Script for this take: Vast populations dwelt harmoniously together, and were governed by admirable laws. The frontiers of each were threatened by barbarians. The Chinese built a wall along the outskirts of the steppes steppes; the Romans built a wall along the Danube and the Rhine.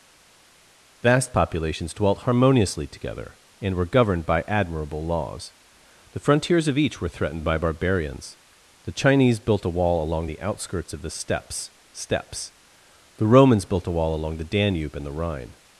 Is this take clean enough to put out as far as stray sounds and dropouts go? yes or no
yes